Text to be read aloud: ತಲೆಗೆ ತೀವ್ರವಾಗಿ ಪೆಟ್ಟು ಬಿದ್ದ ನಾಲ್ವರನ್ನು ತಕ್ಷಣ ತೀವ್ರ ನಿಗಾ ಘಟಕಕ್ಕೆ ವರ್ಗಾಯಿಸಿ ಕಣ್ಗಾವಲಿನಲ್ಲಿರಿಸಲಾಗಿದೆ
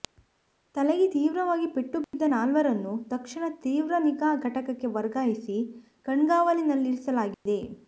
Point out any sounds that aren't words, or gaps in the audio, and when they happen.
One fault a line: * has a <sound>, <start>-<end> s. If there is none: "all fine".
* has a dropout, 2.0-2.1 s
* has a dropout, 7.3-7.5 s